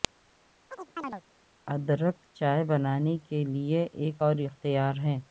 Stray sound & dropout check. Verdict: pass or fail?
fail